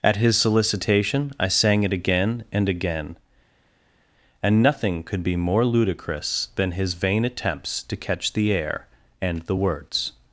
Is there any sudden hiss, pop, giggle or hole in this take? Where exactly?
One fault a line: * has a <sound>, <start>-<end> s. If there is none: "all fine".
all fine